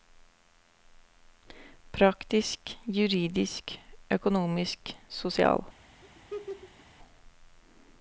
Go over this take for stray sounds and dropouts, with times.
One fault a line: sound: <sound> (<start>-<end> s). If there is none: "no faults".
sound: laugh (6.0-6.9 s)